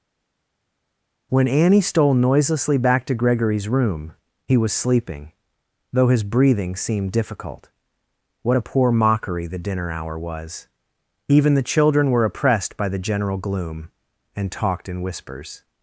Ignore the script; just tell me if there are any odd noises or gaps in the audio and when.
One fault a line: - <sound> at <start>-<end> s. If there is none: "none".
none